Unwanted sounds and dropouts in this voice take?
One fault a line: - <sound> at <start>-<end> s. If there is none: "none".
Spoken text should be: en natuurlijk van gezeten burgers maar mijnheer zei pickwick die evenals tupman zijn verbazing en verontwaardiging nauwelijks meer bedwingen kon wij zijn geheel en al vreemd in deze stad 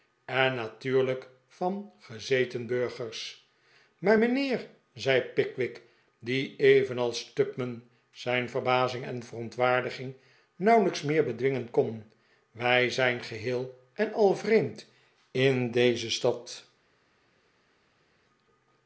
none